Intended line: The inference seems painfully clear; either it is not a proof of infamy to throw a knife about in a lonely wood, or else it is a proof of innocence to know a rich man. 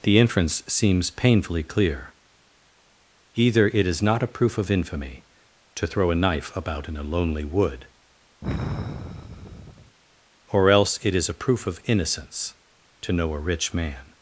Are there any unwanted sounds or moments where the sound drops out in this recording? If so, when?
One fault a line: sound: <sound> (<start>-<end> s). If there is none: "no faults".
sound: sigh (8.4-10.0 s)